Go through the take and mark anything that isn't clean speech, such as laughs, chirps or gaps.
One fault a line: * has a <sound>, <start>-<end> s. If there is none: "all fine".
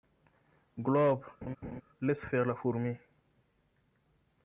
* has a laugh, 1.4-1.8 s